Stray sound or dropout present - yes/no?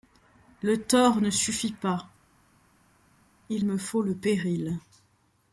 no